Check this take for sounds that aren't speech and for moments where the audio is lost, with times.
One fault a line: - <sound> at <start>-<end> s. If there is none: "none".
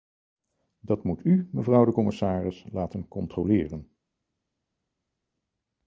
none